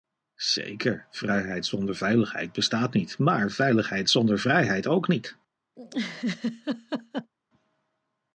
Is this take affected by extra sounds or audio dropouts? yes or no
yes